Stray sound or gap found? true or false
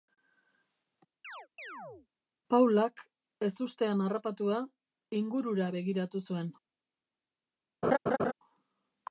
true